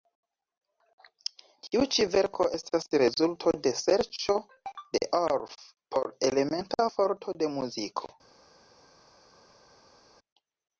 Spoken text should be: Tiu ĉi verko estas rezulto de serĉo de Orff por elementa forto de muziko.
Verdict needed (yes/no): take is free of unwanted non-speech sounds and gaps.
yes